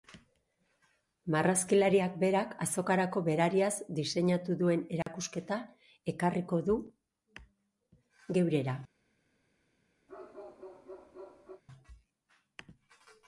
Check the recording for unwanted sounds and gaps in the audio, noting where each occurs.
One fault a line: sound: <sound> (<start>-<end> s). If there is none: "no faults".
sound: dropout (5.0-5.1 s)
sound: bark (10.1-11.6 s)